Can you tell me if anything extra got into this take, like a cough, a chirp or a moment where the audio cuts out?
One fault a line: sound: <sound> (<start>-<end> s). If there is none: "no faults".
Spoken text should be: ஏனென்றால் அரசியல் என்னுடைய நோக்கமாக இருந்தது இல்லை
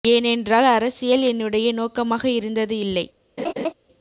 sound: laugh (3.4-3.7 s)